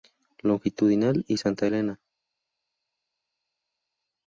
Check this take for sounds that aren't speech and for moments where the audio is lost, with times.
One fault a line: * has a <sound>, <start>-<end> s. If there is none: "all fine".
all fine